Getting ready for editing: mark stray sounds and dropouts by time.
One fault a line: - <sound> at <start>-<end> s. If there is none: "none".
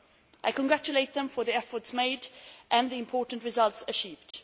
- dropout at 4.3-4.3 s